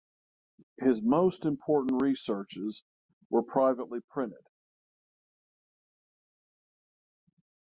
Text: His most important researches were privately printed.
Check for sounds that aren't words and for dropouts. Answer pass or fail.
pass